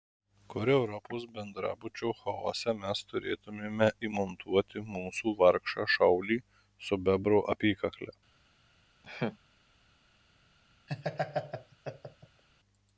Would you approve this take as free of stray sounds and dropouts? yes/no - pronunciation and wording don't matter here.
no